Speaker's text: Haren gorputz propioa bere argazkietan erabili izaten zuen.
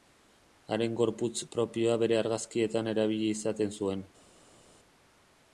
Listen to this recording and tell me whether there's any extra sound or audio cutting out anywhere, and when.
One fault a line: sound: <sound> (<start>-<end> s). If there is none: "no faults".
no faults